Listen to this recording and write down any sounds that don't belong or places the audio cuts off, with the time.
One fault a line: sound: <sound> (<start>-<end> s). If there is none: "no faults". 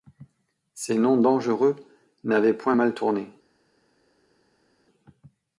no faults